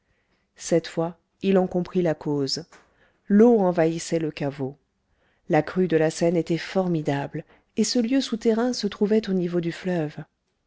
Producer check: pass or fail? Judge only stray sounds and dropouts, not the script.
pass